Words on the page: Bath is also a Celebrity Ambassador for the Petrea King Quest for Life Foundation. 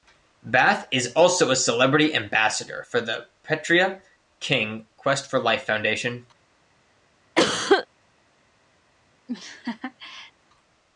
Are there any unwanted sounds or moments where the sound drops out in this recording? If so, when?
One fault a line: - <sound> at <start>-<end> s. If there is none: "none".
- cough at 7.4-7.9 s
- laugh at 9.3-10.3 s